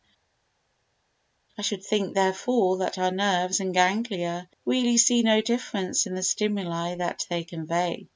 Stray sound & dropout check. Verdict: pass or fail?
pass